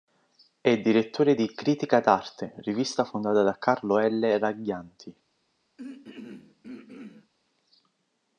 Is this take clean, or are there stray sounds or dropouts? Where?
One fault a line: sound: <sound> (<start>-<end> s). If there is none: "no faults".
sound: throat clearing (5.8-7.3 s)